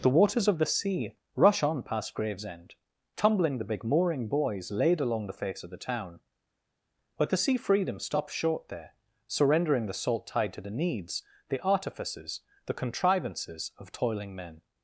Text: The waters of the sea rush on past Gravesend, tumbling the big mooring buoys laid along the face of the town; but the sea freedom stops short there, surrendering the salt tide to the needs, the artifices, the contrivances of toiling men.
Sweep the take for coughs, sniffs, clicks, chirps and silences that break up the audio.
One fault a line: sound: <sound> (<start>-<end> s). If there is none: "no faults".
no faults